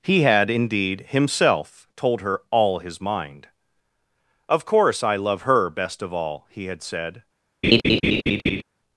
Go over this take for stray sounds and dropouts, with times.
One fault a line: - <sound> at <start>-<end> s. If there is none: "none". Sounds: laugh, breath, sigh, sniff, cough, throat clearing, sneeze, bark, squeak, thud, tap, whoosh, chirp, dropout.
- laugh at 7.6-8.6 s